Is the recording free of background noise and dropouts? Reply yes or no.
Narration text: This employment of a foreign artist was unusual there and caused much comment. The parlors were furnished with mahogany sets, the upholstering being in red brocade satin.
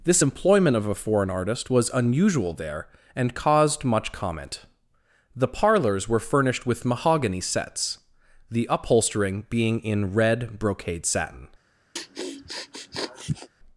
no